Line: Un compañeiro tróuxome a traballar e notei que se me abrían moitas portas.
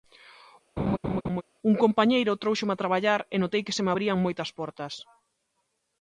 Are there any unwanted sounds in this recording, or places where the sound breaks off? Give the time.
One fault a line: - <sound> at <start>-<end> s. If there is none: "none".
- laugh at 0.8-1.4 s